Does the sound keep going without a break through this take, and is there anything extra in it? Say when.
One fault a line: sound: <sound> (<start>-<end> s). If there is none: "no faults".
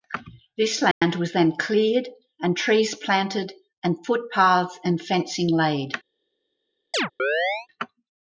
sound: dropout (0.9-1.0 s)
sound: chirp (6.9-7.7 s)